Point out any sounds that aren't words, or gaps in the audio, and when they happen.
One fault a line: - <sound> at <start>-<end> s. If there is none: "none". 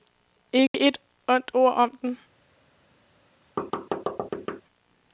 - dropout at 0.7-0.7 s
- thud at 3.6-4.6 s